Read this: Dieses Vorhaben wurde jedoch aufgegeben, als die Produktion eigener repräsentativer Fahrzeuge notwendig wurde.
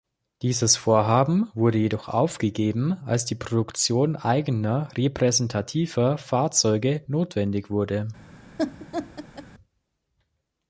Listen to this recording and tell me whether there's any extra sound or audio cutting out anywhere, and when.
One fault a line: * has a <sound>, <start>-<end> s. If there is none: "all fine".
* has a laugh, 8.6-9.5 s